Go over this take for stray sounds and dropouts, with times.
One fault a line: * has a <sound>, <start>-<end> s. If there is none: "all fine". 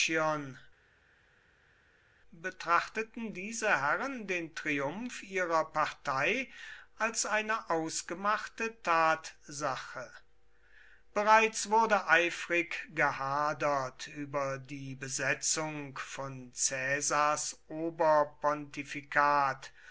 all fine